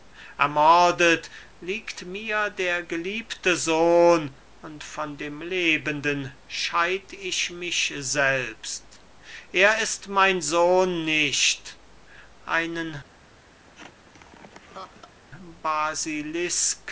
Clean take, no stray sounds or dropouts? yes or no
no